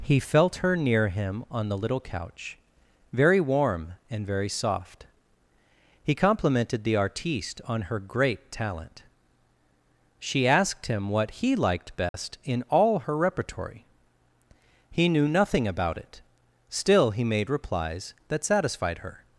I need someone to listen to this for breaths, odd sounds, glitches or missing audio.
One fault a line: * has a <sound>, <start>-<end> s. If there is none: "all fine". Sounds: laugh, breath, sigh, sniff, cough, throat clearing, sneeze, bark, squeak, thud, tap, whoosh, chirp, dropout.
* has a dropout, 12.1-12.1 s